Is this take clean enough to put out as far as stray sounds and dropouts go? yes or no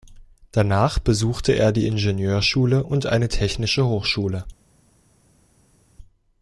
yes